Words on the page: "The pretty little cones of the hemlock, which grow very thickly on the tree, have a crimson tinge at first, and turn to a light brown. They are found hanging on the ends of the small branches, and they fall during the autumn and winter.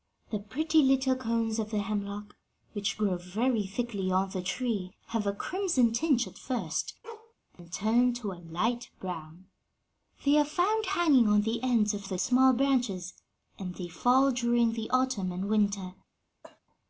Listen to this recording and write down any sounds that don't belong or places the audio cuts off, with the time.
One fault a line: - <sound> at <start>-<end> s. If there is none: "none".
- bark at 7.0-7.3 s
- cough at 16.4-16.6 s